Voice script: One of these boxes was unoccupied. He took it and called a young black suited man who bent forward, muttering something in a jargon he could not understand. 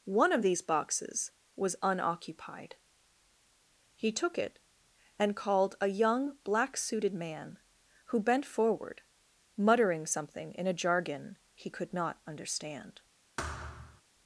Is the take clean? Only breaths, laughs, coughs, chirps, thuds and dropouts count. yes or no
no